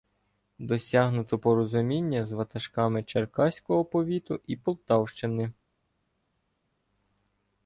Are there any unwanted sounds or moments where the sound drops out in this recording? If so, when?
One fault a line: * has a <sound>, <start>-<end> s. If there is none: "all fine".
all fine